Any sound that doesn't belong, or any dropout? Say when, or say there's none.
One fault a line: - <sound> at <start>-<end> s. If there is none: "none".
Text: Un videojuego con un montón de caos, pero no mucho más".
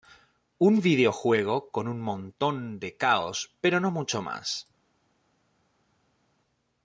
none